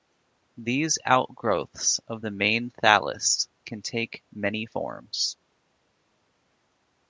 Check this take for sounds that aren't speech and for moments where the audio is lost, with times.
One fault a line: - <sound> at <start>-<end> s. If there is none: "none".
none